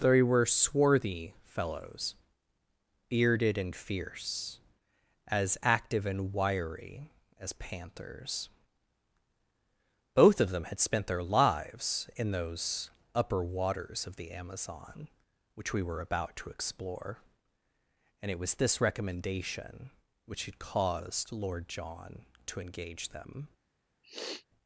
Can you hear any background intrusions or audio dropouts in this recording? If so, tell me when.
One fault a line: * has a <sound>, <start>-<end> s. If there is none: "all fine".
* has a sniff, 24.0-24.5 s